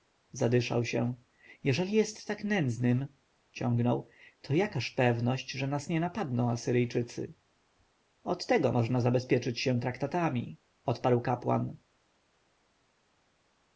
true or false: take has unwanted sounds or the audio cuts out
false